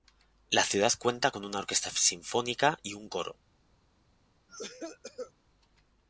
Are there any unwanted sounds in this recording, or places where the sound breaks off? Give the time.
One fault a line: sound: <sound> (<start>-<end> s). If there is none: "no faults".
sound: cough (4.5-5.3 s)